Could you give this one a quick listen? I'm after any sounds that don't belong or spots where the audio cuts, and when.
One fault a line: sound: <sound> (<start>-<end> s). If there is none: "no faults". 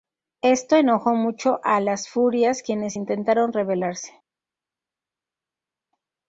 no faults